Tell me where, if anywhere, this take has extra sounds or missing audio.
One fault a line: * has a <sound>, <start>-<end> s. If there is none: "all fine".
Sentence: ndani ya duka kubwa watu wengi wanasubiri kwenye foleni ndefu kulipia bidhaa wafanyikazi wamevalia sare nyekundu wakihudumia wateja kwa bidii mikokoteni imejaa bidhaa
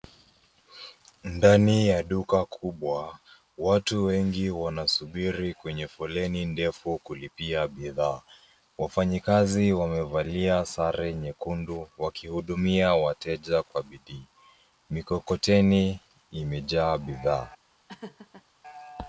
* has a laugh, 17.9-18.5 s